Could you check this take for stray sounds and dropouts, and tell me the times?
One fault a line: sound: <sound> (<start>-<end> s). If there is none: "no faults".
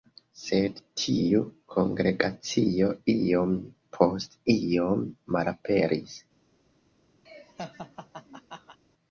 sound: laugh (7.3-8.8 s)